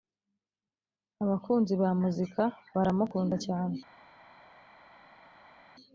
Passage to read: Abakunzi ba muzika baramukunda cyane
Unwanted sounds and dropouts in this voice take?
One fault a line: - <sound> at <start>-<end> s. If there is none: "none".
none